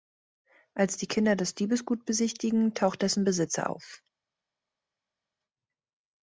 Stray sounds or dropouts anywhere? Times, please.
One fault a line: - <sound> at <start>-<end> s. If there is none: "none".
none